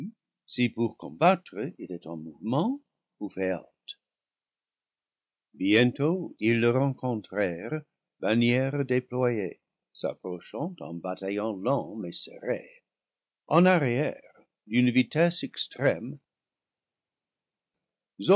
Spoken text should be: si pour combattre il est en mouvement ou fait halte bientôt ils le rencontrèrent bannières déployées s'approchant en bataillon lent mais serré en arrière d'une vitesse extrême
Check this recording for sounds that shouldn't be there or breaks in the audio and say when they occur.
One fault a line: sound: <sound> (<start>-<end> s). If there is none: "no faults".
no faults